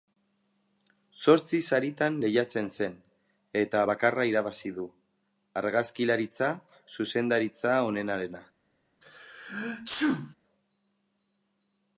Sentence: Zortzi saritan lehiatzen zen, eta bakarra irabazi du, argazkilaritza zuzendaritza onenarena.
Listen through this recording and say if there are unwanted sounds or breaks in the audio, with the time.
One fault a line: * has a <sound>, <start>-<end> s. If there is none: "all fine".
* has a sneeze, 9.0-10.3 s